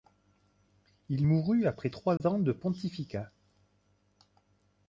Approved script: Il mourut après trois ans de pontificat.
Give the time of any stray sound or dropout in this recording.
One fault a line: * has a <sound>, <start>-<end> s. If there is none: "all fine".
* has a dropout, 2.2-2.2 s